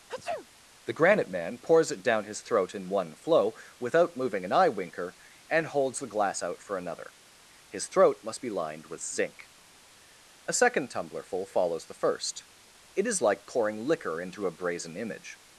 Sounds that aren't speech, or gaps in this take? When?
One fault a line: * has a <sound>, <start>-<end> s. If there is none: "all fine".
* has a sneeze, 0.1-0.5 s